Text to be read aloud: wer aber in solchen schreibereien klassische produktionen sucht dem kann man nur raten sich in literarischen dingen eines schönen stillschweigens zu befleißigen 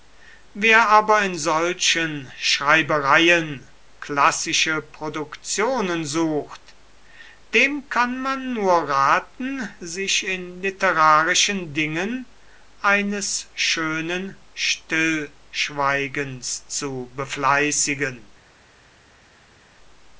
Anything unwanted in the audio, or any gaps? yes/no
no